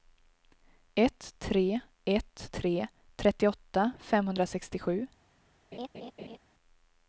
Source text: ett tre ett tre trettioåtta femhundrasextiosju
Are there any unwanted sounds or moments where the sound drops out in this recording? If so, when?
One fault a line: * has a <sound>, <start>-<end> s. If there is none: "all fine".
* has a laugh, 5.7-6.4 s